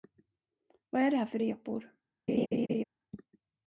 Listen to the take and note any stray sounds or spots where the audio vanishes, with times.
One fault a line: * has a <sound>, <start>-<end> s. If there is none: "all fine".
* has a laugh, 2.3-2.8 s